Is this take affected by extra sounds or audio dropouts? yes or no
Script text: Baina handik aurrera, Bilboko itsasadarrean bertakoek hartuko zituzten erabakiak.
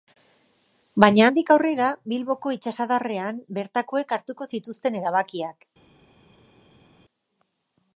no